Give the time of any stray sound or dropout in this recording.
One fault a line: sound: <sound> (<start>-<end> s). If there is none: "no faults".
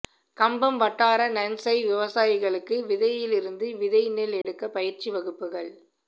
sound: dropout (4.4-4.4 s)